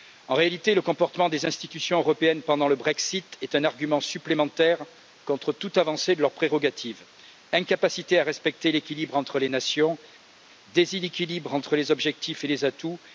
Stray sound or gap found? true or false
false